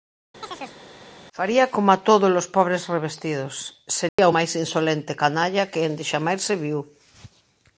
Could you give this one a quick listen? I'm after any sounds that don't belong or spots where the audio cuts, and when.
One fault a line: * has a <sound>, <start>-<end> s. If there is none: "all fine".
* has a chirp, 0.4-0.8 s
* has a dropout, 4.1-4.2 s